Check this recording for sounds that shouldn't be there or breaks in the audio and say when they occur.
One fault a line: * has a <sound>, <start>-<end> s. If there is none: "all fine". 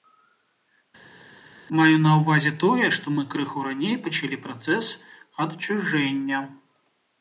all fine